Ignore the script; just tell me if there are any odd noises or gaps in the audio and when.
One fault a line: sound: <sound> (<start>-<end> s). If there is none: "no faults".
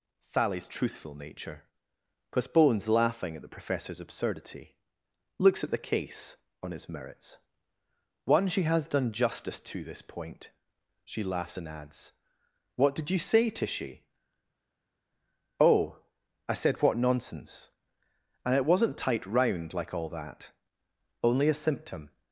no faults